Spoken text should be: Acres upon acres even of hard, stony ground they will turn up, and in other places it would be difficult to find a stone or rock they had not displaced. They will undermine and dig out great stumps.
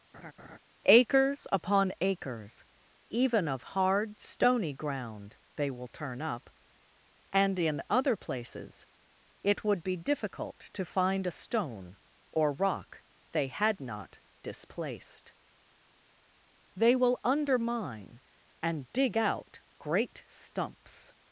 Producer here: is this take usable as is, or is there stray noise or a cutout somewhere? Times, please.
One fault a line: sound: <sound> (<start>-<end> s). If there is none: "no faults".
sound: laugh (0.1-0.6 s)